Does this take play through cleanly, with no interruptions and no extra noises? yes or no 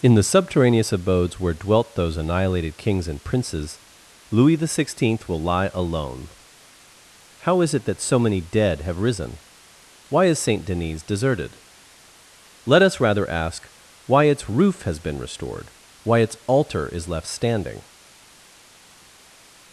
yes